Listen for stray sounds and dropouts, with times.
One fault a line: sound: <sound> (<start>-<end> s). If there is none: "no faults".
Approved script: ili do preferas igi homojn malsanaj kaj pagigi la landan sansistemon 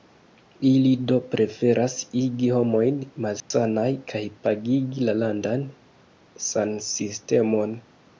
sound: dropout (3.4-3.5 s)